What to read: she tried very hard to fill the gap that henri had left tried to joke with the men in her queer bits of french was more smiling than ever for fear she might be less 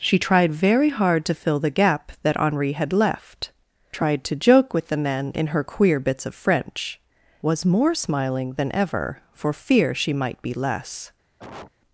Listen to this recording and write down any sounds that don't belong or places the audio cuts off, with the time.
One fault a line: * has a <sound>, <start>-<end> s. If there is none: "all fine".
* has a cough, 11.4-11.7 s